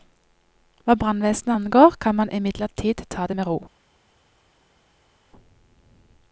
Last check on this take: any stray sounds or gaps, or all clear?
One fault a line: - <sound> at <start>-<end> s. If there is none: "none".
none